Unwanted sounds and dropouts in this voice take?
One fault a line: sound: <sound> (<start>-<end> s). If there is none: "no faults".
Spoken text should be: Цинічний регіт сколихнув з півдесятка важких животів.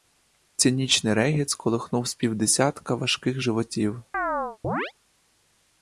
sound: chirp (4.1-4.9 s)